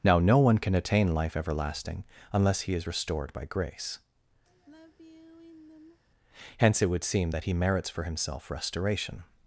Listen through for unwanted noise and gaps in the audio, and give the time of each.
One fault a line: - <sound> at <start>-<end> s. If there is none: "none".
- sigh at 4.5-6.0 s